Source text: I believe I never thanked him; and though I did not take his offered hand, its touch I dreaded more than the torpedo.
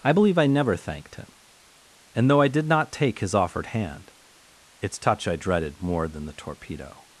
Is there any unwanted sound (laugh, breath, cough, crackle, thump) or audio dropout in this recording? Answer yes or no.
no